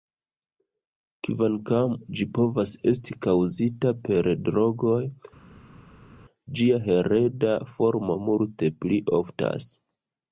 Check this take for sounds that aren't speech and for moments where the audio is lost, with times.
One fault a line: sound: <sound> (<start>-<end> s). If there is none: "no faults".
no faults